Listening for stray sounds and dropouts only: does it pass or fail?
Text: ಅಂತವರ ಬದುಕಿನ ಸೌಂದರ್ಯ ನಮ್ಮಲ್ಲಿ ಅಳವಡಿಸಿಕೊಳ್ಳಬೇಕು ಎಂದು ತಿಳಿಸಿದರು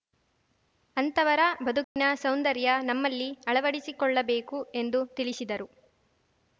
fail